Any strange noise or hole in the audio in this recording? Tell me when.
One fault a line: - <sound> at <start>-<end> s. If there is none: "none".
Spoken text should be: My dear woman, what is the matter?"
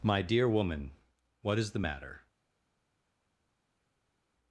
none